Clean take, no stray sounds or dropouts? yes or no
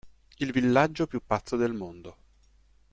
yes